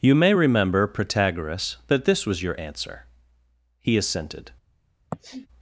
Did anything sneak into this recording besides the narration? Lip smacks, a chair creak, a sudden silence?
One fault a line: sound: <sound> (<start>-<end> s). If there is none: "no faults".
sound: sniff (5.1-5.5 s)